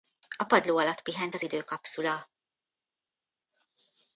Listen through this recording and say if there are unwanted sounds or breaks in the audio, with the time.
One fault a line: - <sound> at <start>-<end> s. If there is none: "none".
none